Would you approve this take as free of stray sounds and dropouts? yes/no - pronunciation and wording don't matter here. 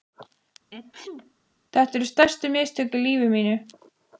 no